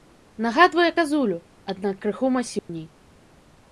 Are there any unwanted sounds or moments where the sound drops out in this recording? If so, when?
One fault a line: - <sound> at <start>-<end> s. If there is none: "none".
- dropout at 2.6-2.7 s